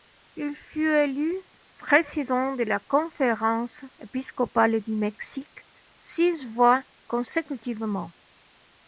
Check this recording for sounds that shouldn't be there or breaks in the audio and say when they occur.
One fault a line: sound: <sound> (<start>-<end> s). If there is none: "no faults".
no faults